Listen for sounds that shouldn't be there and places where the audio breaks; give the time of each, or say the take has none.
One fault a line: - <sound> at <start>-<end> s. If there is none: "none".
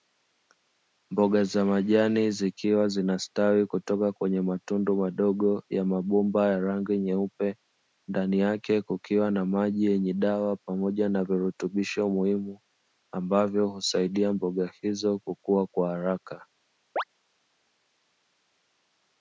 - chirp at 17.0-17.0 s